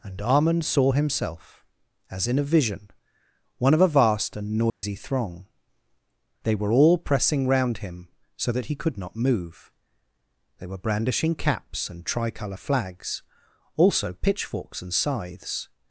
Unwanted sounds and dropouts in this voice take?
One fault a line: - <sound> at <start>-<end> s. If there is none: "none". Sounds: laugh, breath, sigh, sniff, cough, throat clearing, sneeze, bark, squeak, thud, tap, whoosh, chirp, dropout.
- dropout at 4.7-4.8 s